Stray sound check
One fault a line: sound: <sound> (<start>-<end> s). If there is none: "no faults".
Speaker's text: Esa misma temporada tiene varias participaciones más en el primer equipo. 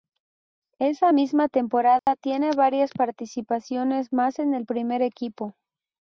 sound: dropout (2.0-2.1 s)